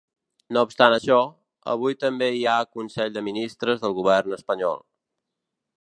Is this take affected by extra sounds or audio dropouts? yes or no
no